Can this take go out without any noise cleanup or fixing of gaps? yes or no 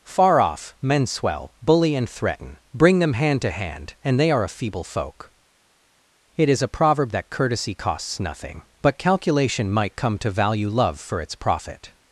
yes